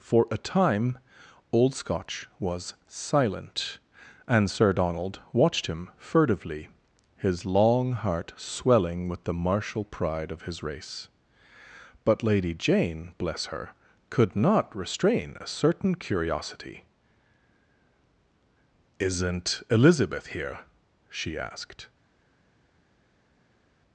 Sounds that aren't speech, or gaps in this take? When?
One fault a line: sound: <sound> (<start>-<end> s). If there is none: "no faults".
no faults